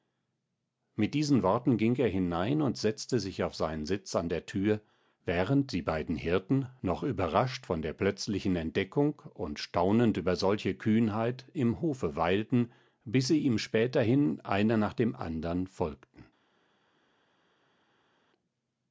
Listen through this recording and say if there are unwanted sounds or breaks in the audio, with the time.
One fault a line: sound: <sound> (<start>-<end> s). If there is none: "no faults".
no faults